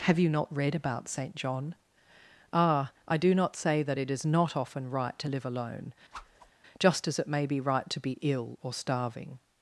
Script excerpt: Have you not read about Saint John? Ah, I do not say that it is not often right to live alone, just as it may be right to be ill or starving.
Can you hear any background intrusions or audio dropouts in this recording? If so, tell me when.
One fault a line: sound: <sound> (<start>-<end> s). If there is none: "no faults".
sound: whoosh (6.1-6.5 s)